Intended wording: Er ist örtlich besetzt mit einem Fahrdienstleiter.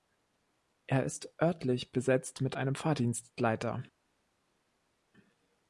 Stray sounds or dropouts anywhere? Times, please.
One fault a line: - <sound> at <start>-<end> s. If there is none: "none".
none